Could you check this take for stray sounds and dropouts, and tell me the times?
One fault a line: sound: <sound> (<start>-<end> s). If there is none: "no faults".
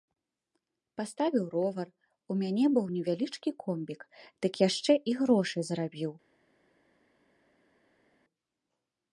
no faults